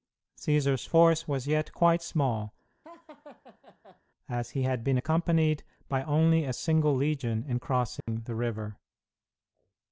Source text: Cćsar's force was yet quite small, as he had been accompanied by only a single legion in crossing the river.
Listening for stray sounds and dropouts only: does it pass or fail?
fail